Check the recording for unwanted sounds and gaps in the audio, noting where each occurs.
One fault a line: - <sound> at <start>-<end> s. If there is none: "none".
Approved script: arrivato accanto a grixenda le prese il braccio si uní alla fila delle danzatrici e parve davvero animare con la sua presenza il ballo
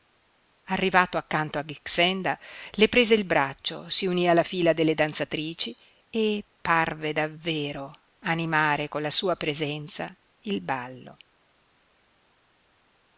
none